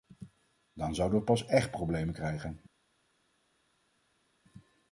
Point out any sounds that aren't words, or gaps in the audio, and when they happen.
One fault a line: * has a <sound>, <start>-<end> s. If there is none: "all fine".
all fine